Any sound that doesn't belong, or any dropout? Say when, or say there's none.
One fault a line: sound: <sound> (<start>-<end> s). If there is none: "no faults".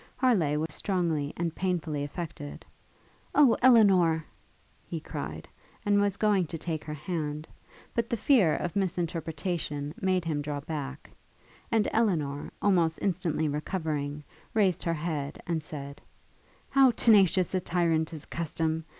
sound: dropout (0.7-0.7 s)